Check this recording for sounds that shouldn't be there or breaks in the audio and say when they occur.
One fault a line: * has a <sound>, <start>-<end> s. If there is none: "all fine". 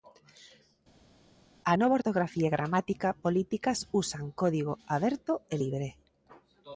all fine